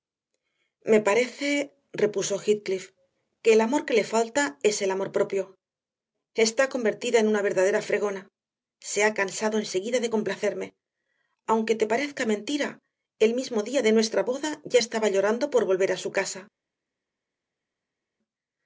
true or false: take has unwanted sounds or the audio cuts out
false